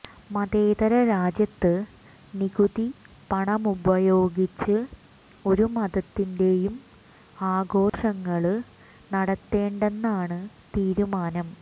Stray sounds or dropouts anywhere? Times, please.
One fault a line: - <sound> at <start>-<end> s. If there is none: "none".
- dropout at 7.9-7.9 s